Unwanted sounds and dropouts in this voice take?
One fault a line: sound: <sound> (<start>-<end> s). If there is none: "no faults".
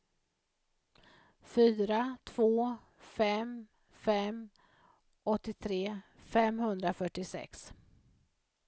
no faults